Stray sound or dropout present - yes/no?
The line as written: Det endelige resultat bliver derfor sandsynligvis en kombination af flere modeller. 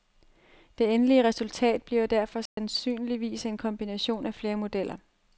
yes